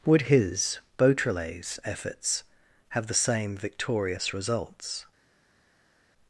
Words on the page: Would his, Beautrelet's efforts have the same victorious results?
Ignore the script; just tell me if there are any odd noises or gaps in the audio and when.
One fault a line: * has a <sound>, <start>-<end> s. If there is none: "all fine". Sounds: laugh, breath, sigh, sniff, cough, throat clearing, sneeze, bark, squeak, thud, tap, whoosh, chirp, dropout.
all fine